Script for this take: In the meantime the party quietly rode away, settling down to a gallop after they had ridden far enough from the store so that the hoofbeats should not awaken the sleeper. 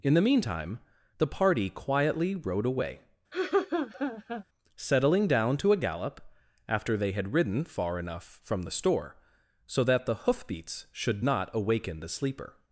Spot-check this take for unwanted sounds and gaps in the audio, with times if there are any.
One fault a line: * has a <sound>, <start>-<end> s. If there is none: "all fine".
* has a laugh, 3.3-4.4 s